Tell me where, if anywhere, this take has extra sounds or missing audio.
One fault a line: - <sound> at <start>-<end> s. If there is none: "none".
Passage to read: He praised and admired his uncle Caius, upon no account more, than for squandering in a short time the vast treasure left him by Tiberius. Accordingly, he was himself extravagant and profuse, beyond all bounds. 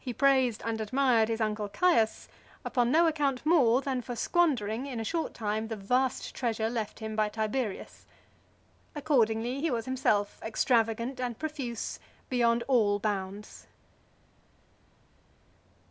none